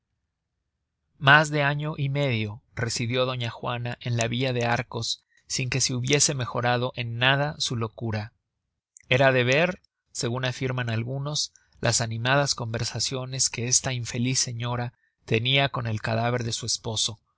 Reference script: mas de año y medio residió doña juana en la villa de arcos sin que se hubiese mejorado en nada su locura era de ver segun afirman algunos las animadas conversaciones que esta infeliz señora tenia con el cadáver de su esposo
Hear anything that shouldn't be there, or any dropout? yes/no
no